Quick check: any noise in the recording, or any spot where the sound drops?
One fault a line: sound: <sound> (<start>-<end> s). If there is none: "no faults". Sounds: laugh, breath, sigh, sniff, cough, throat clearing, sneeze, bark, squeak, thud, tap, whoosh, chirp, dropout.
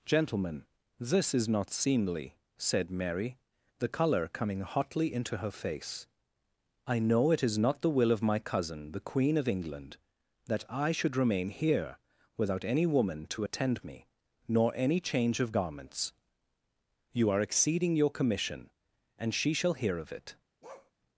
sound: bark (20.6-20.9 s)